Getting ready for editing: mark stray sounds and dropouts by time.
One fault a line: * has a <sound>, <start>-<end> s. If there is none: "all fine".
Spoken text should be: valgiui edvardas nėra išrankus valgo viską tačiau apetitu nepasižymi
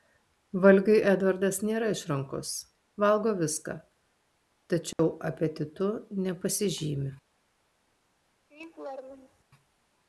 * has a dropout, 4.9-5.0 s
* has a laugh, 8.5-9.4 s